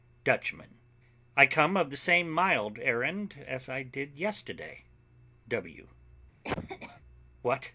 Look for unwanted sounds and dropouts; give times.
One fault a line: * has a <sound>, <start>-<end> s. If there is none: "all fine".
* has a cough, 6.4-7.0 s